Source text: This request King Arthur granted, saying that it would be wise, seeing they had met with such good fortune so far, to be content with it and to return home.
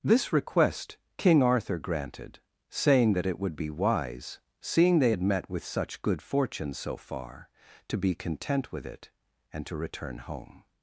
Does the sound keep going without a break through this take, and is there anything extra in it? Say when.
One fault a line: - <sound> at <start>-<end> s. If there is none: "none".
none